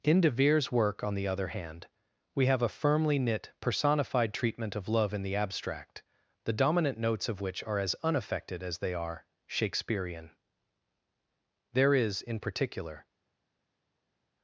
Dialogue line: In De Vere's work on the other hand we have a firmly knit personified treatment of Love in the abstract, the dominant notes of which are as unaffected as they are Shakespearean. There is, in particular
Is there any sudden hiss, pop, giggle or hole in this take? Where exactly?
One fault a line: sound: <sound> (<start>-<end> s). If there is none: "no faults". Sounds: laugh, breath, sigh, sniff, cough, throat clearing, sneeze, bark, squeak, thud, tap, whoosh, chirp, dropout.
no faults